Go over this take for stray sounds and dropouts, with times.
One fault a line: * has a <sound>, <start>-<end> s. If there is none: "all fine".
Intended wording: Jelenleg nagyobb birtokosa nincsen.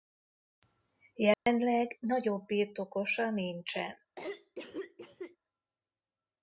* has a dropout, 1.3-1.5 s
* has a cough, 4.2-5.4 s